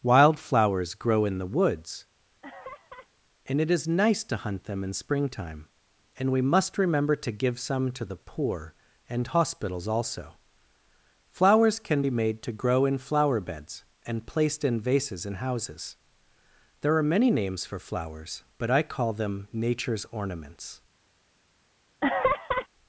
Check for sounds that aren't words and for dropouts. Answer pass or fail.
fail